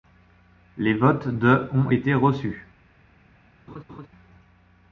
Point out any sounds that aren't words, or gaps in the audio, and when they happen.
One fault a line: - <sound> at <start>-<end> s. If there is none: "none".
- laugh at 3.7-4.1 s